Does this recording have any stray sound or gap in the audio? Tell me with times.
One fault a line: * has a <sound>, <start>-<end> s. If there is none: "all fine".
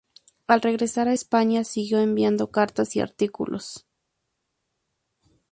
all fine